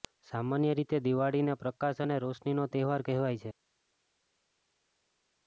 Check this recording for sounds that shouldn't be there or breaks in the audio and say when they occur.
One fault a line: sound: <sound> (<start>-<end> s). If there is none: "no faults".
no faults